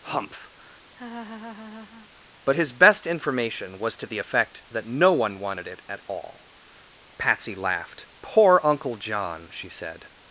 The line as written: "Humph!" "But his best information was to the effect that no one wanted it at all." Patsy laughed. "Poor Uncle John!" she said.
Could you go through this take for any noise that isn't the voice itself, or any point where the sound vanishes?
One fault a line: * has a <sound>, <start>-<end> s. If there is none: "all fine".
* has a laugh, 0.9-2.1 s